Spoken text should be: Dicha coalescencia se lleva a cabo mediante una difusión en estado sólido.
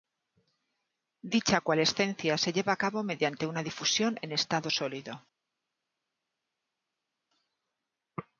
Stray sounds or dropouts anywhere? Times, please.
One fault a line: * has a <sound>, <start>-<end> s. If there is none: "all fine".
all fine